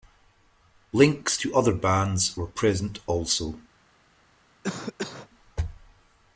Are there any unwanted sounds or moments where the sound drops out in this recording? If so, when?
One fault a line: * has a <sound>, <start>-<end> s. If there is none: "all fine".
* has a cough, 4.6-5.3 s